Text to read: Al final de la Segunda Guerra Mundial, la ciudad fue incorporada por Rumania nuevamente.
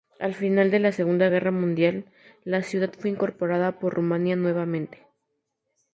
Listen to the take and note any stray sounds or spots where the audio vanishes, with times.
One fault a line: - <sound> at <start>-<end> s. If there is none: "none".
none